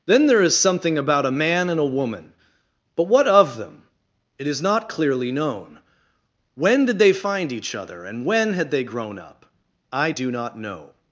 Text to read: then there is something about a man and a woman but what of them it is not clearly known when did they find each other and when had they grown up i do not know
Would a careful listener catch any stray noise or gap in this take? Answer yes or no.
no